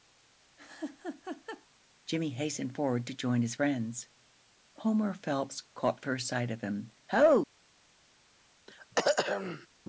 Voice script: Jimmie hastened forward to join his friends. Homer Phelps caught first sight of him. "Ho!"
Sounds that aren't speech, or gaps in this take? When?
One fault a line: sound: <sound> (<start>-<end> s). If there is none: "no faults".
sound: laugh (0.6-1.7 s)
sound: throat clearing (8.7-9.7 s)